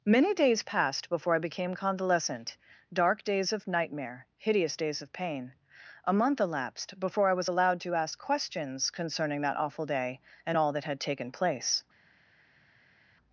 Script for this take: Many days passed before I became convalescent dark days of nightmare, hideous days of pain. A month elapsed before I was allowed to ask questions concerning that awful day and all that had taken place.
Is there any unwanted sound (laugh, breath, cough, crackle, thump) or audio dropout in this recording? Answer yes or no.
no